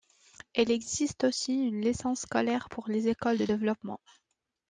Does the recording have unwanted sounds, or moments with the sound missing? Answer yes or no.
no